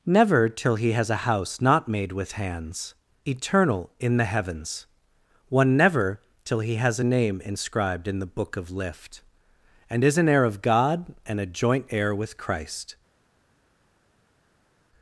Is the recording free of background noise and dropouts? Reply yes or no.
yes